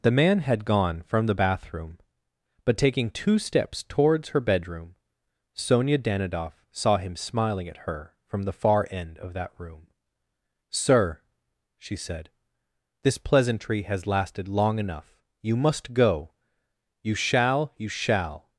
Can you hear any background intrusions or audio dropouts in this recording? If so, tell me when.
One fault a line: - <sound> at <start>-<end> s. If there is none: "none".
none